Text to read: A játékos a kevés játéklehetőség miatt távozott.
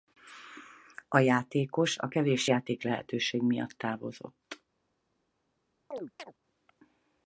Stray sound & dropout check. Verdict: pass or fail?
fail